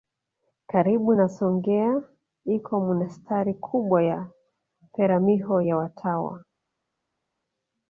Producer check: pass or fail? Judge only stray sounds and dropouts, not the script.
pass